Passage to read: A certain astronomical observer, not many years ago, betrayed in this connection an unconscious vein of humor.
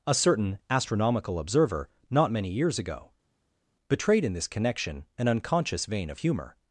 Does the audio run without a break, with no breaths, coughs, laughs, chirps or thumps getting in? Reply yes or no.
yes